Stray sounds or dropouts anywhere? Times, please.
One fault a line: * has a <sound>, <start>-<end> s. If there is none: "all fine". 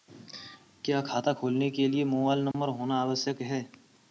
* has a dropout, 2.5-2.5 s